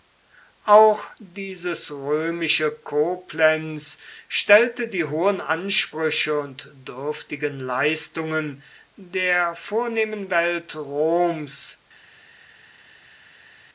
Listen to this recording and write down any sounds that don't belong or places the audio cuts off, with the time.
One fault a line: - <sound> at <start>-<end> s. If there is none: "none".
none